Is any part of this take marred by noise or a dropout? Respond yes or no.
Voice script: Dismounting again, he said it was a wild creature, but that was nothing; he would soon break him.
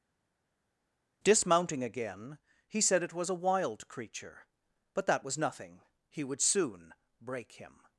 no